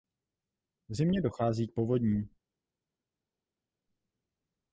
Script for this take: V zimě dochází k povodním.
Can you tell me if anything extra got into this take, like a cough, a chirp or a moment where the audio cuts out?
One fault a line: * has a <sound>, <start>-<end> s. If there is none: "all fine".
all fine